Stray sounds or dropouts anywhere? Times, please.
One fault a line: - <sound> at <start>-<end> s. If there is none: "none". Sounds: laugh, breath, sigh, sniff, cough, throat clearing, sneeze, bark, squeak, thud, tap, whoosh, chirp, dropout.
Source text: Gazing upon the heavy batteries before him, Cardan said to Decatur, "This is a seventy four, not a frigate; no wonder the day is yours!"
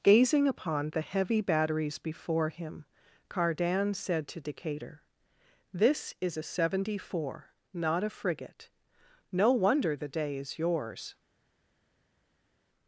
none